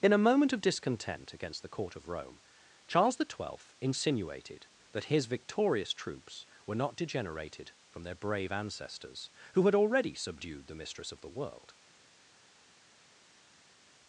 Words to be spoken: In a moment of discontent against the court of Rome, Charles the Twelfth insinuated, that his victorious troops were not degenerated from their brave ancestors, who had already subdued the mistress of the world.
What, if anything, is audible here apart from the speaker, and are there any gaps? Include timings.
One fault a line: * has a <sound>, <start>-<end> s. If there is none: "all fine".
all fine